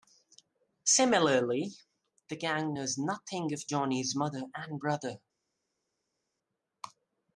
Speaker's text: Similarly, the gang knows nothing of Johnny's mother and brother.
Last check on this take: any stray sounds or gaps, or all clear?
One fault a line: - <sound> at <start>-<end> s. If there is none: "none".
none